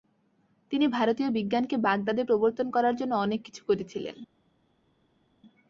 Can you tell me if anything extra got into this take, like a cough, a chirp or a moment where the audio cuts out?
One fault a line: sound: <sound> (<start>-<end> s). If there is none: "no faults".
no faults